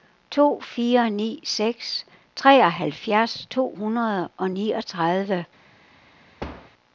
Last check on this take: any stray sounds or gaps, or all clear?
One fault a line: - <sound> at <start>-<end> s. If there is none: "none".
- thud at 6.4-6.7 s